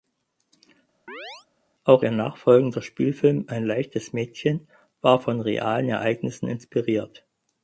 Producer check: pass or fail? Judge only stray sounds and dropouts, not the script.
fail